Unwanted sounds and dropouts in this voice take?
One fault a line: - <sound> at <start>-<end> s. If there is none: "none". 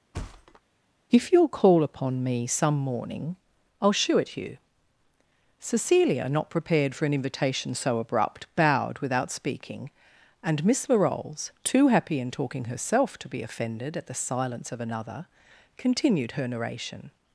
- thud at 0.1-0.6 s